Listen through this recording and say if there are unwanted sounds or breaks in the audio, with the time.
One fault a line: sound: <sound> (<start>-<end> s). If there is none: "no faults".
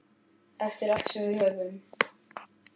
no faults